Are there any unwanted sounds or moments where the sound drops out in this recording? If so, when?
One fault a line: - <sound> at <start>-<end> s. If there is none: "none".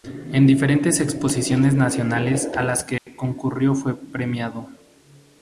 - dropout at 3.0-3.1 s